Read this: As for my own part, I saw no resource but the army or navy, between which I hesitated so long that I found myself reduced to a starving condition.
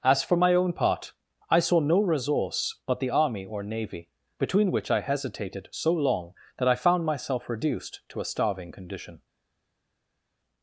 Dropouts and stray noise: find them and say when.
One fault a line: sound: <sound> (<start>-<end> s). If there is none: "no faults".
no faults